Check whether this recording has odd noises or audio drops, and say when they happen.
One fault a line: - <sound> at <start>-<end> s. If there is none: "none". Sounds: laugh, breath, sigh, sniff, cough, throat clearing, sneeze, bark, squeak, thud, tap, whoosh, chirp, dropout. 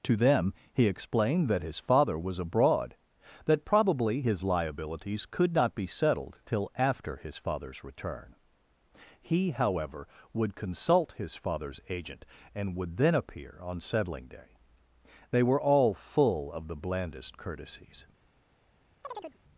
- chirp at 19.0-19.4 s